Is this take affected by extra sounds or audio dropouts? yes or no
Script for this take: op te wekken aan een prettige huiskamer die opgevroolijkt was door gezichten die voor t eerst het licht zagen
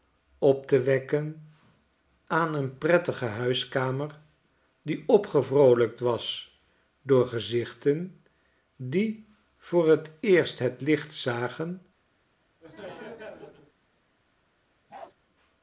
yes